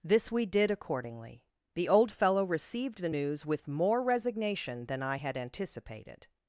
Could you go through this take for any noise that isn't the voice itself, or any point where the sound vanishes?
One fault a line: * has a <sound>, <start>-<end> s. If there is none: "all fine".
all fine